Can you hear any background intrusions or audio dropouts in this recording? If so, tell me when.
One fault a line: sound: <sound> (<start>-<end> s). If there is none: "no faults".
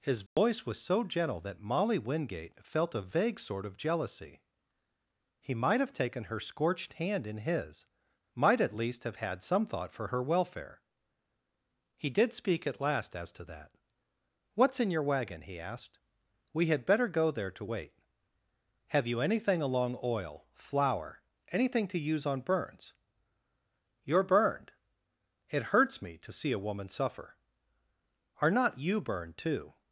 sound: dropout (0.3-0.4 s)